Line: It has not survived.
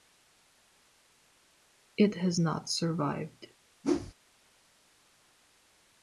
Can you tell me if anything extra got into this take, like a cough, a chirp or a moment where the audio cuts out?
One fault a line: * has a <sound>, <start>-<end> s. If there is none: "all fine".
* has a whoosh, 3.8-4.1 s